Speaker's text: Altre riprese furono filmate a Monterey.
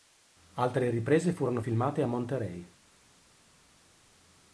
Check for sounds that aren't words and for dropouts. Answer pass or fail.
pass